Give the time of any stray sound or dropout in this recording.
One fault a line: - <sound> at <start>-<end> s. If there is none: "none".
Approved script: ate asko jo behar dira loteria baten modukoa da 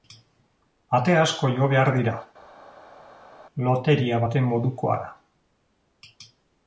none